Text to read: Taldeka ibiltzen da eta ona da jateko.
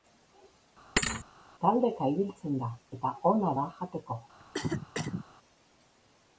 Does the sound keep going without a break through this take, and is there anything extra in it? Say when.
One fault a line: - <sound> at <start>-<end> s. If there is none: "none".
- thud at 1.0-1.2 s
- cough at 4.4-5.2 s